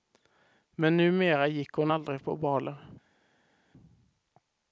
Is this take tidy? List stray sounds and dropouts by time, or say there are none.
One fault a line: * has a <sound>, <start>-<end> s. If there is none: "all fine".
all fine